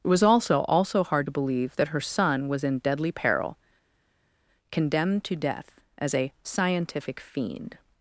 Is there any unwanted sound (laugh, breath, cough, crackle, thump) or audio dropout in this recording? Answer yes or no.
no